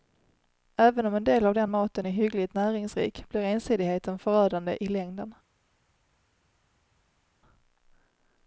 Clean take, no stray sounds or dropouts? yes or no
yes